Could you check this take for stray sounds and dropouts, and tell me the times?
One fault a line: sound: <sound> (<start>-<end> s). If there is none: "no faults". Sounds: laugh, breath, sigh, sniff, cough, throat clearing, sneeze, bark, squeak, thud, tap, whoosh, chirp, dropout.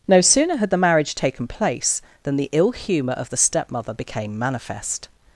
no faults